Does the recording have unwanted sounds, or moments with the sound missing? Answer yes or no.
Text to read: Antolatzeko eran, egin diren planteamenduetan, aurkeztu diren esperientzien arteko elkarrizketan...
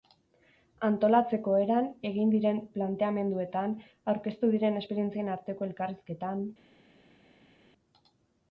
no